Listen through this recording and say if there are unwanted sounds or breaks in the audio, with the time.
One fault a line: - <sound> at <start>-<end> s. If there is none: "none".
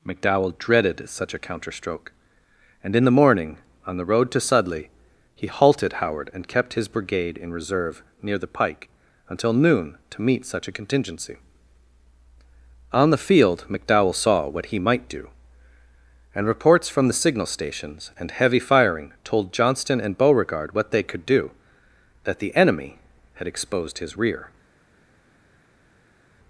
none